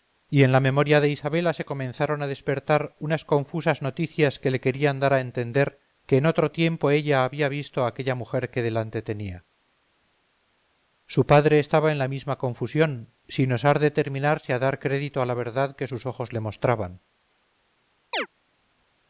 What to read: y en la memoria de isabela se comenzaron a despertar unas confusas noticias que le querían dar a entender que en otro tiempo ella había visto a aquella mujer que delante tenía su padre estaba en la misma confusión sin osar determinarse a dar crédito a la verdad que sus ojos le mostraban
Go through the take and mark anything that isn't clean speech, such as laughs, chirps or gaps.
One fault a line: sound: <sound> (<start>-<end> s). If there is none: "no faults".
sound: chirp (18.1-18.3 s)